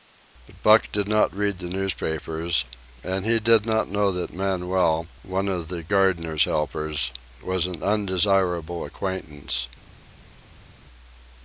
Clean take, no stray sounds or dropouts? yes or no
yes